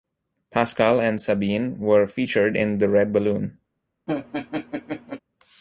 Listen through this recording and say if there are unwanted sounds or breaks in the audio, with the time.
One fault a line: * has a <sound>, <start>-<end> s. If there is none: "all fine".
* has a laugh, 4.1-5.2 s